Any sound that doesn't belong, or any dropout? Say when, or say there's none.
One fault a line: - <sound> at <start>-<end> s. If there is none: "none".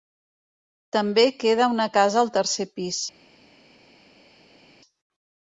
none